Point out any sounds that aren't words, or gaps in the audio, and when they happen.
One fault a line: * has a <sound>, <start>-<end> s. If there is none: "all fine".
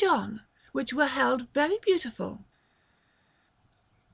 all fine